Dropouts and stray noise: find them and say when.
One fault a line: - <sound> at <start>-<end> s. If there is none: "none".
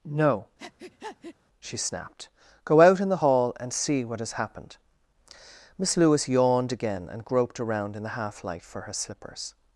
- breath at 0.6-1.4 s